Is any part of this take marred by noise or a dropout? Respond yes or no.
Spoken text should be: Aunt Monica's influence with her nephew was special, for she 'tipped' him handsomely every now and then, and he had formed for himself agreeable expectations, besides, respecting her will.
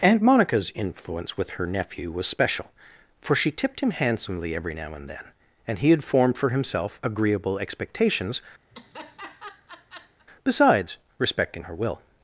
yes